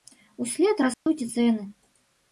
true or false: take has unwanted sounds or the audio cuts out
true